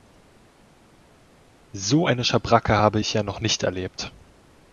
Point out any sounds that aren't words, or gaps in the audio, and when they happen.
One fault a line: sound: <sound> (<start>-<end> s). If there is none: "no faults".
no faults